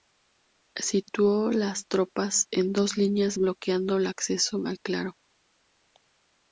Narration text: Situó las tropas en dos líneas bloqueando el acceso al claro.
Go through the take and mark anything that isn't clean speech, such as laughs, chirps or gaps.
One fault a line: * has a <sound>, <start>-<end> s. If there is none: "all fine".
all fine